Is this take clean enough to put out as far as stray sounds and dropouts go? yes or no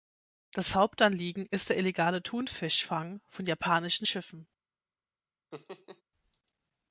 no